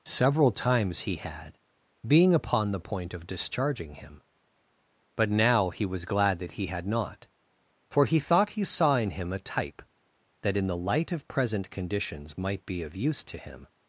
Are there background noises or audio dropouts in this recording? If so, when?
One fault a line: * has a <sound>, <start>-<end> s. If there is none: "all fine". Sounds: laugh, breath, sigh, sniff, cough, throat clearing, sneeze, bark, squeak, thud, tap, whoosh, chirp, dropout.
all fine